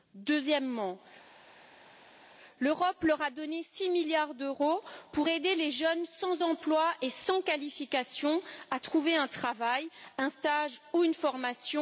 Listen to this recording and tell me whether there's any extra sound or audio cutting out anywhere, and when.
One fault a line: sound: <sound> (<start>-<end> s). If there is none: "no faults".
no faults